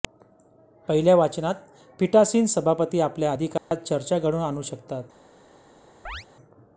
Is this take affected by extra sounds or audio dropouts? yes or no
yes